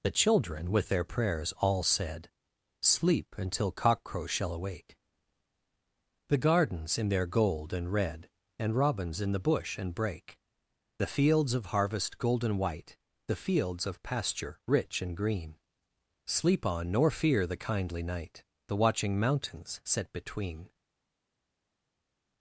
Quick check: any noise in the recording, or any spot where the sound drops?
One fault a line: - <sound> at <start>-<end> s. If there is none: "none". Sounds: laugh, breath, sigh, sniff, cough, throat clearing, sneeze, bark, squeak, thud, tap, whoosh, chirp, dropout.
none